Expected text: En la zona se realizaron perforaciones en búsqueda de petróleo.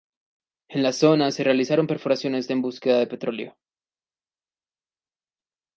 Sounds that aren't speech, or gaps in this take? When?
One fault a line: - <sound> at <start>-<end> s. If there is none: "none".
none